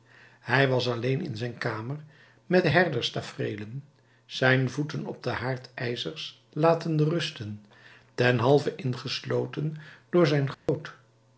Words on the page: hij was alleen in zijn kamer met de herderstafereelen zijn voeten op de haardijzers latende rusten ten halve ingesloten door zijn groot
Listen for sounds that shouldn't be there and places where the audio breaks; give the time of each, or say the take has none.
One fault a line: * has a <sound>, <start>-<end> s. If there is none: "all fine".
* has a dropout, 10.5-10.7 s